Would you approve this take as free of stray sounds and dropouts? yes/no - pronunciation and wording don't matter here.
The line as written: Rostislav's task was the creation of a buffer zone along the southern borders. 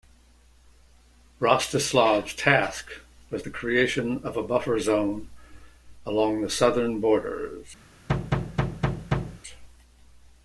no